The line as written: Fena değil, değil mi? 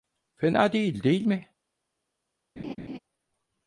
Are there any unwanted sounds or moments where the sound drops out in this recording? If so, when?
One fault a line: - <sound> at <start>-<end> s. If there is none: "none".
- laugh at 2.6-3.0 s